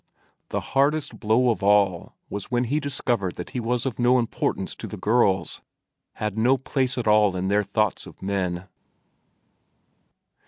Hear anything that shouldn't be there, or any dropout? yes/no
no